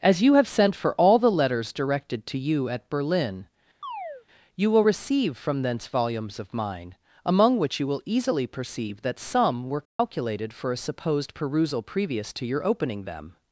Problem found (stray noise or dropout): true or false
true